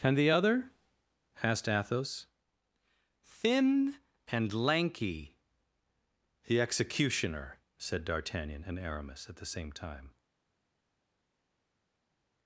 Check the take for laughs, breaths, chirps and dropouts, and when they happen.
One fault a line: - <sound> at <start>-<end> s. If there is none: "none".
none